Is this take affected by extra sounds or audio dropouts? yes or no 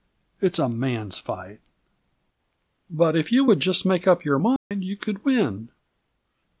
yes